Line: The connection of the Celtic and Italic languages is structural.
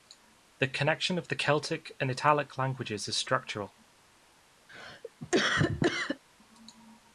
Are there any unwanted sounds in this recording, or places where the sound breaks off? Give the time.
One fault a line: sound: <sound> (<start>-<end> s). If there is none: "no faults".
sound: cough (4.7-6.2 s)